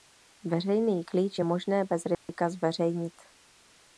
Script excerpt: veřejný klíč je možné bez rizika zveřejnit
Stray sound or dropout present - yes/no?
yes